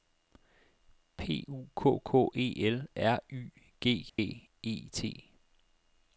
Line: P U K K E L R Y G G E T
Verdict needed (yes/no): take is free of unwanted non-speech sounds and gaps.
no